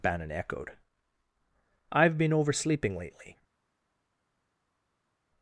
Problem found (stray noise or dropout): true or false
false